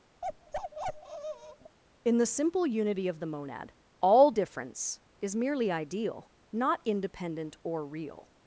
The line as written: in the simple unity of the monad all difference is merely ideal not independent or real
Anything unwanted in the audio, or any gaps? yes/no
yes